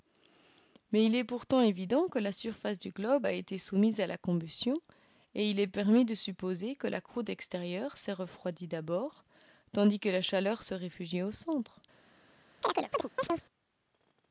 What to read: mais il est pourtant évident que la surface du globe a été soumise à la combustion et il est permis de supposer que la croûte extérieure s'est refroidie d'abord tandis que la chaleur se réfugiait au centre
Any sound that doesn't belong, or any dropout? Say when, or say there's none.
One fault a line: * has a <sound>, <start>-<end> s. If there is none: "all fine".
* has a chirp, 12.6-13.5 s